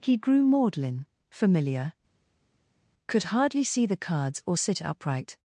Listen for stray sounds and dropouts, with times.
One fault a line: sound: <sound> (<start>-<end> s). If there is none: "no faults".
no faults